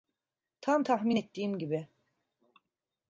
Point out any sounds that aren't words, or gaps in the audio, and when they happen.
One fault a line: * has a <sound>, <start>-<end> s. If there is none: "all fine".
all fine